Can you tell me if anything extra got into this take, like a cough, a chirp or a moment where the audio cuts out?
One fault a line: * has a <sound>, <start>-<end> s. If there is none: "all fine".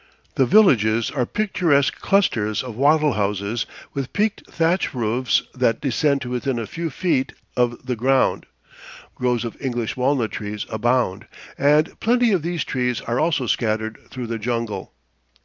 all fine